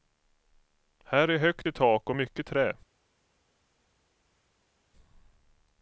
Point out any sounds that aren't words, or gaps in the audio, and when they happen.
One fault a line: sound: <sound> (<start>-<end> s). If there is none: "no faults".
no faults